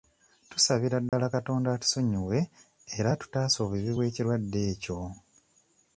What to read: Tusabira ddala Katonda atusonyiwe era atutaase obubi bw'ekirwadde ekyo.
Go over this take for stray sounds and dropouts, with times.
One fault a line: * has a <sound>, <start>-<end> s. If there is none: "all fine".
* has a dropout, 1.1-1.1 s